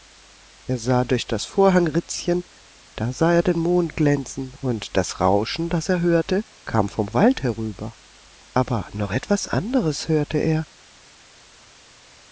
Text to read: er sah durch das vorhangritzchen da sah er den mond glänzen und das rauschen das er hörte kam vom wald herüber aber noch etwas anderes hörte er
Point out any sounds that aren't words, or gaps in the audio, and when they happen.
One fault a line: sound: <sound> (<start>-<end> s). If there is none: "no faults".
no faults